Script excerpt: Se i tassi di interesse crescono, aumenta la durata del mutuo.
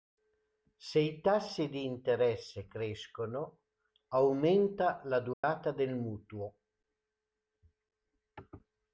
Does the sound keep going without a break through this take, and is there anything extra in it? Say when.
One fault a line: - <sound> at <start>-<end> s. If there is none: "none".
- dropout at 5.3-5.4 s